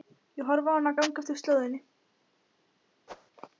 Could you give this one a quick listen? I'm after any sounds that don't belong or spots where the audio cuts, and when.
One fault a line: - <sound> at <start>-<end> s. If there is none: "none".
- whoosh at 3.1-3.3 s